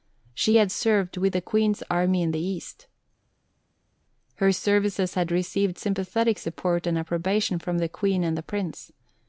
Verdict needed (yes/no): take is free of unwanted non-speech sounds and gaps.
yes